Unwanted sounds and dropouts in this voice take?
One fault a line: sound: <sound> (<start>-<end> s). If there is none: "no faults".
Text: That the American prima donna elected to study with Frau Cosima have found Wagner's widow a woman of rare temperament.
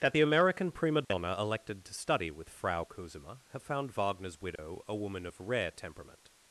sound: dropout (1.0-1.1 s)
sound: dropout (4.6-4.6 s)